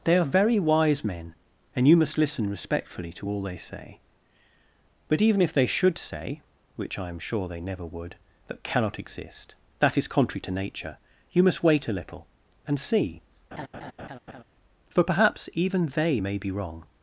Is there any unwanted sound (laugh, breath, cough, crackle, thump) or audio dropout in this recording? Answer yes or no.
yes